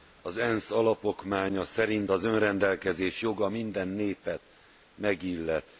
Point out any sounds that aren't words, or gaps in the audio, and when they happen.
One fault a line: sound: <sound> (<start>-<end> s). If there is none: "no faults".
no faults